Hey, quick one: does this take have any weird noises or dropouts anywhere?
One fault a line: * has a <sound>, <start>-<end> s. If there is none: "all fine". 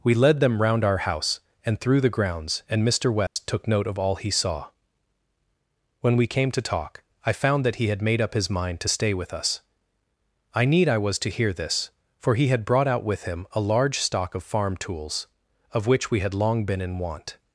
* has a dropout, 3.3-3.4 s